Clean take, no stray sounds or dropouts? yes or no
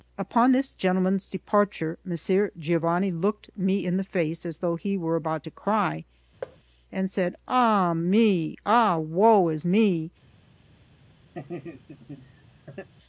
no